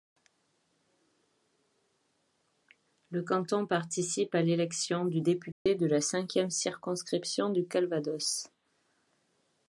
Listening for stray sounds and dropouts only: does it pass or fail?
fail